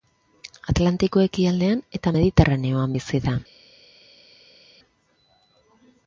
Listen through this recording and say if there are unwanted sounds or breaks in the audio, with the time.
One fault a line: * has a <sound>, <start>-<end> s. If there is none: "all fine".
all fine